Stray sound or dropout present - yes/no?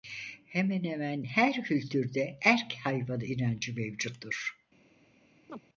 yes